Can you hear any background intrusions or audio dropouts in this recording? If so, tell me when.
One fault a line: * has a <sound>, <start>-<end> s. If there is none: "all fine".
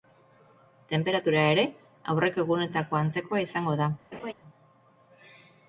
* has a laugh, 4.1-4.3 s